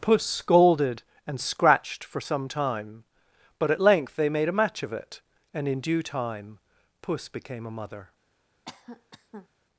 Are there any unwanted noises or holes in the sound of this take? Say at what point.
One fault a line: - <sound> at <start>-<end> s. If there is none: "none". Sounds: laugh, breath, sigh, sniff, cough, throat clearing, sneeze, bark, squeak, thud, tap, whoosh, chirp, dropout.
- cough at 8.6-9.5 s